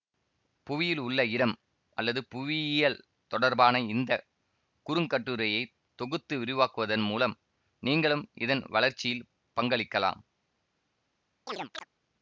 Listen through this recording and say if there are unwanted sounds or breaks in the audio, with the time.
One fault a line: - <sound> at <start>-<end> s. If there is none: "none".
- chirp at 11.5-11.9 s